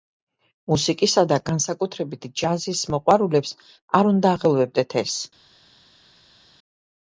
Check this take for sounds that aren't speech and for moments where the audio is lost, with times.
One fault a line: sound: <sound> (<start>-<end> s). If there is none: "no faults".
no faults